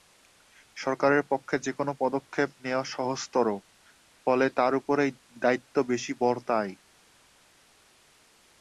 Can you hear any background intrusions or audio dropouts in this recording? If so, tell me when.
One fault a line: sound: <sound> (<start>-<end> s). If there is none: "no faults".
no faults